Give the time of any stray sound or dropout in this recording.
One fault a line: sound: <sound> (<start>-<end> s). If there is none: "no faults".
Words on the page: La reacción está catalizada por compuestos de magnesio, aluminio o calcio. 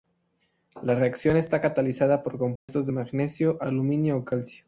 sound: dropout (2.6-2.7 s)